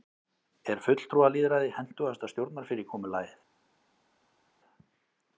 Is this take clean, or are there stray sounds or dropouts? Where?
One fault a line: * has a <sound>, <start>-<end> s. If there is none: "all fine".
all fine